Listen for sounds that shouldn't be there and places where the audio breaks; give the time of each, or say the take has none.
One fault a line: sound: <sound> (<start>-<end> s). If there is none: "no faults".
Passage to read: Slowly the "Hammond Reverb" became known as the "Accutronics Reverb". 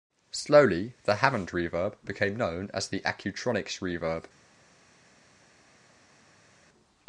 no faults